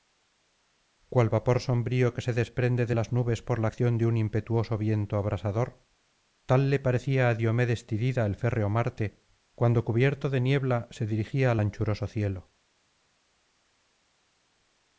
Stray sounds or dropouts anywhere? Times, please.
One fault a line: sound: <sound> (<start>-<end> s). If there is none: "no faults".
no faults